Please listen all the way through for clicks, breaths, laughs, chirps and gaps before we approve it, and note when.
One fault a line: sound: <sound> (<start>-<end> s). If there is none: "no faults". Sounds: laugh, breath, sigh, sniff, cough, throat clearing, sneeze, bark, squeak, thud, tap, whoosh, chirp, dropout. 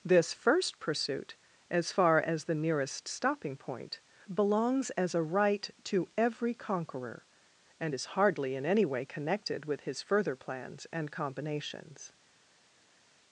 no faults